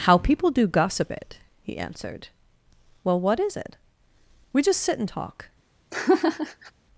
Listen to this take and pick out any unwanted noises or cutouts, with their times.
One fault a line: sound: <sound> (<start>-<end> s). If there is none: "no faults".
sound: laugh (5.9-6.7 s)